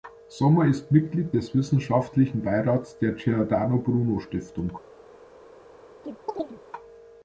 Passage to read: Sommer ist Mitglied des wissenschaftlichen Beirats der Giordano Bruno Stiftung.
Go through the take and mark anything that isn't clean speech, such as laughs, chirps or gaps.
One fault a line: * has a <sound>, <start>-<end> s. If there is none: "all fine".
* has a chirp, 6.0-6.6 s